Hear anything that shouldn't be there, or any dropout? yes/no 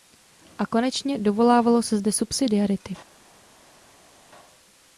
no